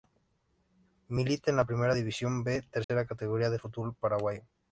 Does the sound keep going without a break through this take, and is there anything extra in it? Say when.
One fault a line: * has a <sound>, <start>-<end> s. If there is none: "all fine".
* has a dropout, 2.8-2.9 s